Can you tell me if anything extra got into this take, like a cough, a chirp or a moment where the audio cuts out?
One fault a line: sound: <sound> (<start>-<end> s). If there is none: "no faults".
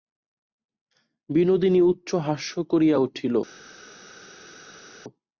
no faults